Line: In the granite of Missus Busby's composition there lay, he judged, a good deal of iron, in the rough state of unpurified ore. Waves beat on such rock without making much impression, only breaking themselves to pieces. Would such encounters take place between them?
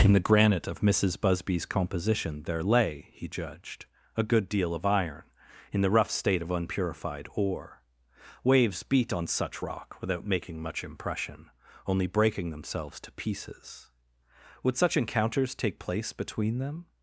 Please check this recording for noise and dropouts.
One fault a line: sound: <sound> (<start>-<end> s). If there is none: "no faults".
no faults